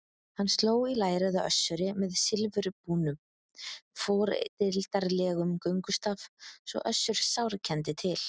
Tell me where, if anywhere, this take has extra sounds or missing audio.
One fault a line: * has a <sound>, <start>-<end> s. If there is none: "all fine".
all fine